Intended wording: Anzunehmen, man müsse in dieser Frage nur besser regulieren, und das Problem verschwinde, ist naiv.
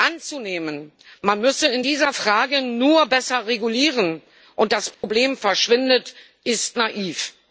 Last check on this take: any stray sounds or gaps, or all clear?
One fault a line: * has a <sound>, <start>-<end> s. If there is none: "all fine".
* has a dropout, 4.9-5.0 s